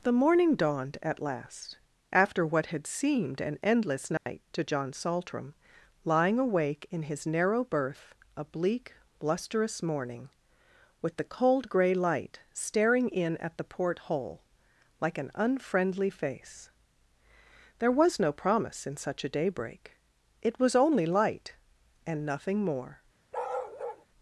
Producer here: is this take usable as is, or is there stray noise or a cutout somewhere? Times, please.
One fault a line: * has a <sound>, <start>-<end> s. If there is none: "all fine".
* has a dropout, 4.2-4.3 s
* has a bark, 23.3-24.1 s